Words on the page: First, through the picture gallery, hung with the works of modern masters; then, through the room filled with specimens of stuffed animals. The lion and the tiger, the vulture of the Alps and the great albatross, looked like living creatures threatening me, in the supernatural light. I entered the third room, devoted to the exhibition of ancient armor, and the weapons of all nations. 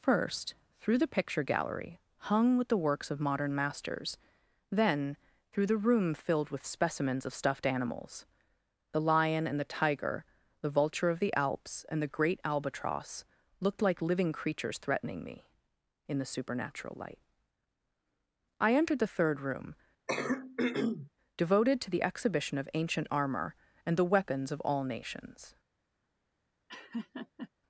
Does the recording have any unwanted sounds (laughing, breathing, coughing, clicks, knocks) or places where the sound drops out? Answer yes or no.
yes